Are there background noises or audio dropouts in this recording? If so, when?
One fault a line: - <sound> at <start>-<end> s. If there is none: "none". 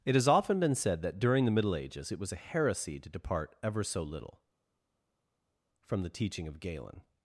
none